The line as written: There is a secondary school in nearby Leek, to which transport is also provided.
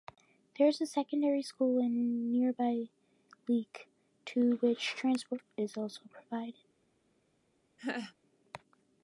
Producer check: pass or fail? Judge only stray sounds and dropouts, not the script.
fail